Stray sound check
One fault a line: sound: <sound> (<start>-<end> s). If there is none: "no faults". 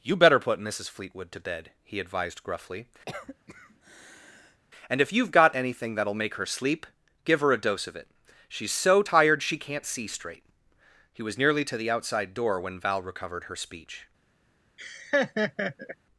sound: cough (3.1-4.6 s)
sound: laugh (14.8-16.0 s)